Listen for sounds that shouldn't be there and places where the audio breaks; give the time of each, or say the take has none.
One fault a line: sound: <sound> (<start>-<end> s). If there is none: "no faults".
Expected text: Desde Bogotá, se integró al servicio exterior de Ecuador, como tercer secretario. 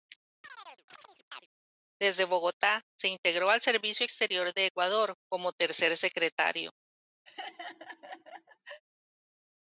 sound: chirp (0.4-1.5 s)
sound: laugh (7.3-8.8 s)